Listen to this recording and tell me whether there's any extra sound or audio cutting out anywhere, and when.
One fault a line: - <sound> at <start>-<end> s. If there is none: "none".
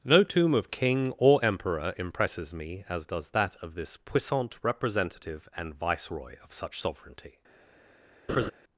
- laugh at 8.3-8.5 s